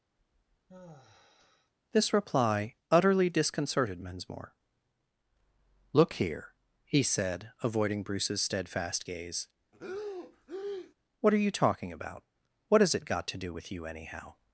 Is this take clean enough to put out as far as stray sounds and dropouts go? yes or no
no